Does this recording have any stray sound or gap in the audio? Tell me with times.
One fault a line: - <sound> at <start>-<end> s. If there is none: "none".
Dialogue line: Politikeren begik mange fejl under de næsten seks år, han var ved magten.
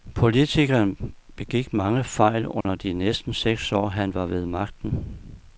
- dropout at 2.6-2.6 s